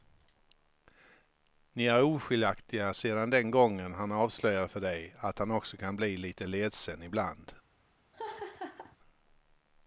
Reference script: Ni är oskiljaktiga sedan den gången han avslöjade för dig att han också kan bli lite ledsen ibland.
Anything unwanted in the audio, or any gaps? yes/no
yes